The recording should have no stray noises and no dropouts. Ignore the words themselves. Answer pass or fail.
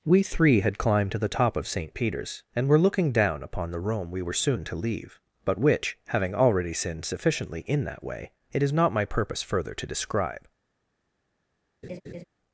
fail